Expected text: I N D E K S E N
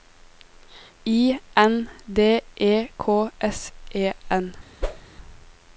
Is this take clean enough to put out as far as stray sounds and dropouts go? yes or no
no